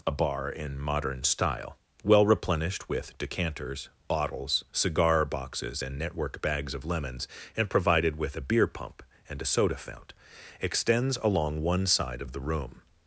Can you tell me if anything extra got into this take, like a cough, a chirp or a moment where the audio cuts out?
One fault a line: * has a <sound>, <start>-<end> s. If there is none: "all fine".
all fine